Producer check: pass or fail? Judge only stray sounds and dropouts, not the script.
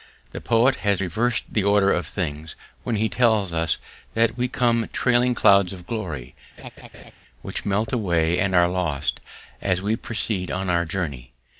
fail